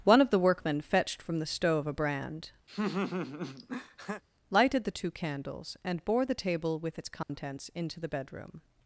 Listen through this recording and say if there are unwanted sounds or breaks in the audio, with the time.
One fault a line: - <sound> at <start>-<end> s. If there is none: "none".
- laugh at 2.7-4.2 s
- dropout at 7.2-7.3 s